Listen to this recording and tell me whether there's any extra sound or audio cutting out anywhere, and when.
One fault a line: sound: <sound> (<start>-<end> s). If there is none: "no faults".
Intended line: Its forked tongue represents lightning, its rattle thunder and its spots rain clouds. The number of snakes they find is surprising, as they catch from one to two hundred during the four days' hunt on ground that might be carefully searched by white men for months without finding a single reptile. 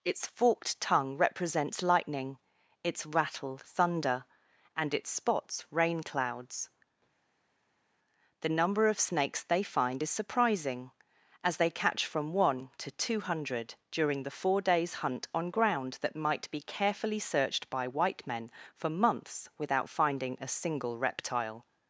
no faults